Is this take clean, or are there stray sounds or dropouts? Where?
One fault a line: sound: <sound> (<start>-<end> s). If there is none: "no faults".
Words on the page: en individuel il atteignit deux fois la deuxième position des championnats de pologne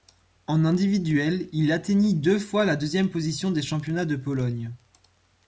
no faults